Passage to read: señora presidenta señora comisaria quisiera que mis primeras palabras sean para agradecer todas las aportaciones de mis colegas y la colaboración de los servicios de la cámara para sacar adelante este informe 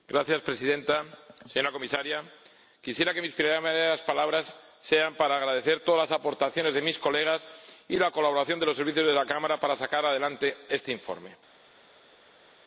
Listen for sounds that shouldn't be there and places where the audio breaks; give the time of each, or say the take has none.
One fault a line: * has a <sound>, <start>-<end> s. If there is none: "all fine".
all fine